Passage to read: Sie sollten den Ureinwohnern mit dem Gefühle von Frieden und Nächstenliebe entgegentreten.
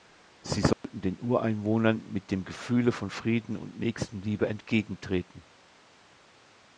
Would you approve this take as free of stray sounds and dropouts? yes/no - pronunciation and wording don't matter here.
no